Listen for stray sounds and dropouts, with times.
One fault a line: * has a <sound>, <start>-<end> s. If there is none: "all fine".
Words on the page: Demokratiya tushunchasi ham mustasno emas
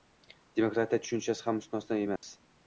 * has a dropout, 2.2-2.2 s